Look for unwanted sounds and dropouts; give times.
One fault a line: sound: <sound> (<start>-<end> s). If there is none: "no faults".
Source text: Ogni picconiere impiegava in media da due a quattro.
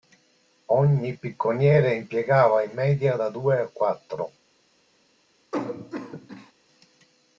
sound: cough (5.5-6.5 s)